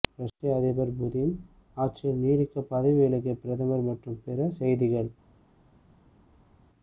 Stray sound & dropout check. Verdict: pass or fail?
pass